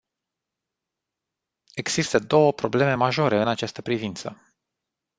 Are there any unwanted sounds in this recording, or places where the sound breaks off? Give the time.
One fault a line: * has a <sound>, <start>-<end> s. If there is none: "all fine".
all fine